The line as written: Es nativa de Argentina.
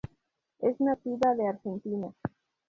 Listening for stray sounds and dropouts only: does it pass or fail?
pass